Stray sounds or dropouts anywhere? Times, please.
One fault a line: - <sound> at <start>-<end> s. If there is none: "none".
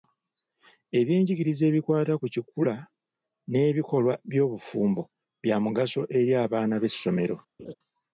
- laugh at 7.6-7.7 s